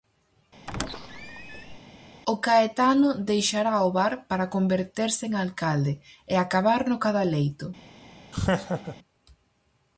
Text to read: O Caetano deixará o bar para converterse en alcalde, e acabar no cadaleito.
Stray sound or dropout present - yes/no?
yes